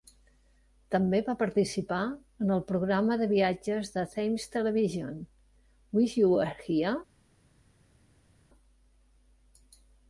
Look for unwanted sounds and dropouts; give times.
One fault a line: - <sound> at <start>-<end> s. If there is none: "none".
none